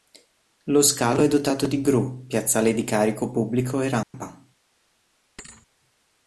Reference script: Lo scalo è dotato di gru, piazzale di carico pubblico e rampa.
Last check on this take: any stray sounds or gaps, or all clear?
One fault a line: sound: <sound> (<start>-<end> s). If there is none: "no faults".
sound: dropout (4.0-4.1 s)
sound: thud (5.4-5.7 s)